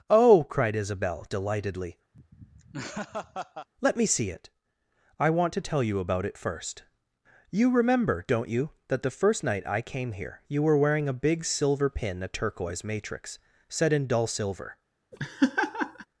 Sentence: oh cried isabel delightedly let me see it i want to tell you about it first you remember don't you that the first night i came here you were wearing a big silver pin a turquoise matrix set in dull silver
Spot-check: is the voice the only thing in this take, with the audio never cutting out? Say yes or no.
no